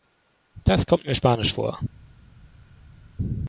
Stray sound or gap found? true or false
false